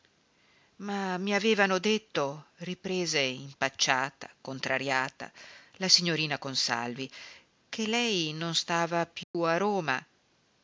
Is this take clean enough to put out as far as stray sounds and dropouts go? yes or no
no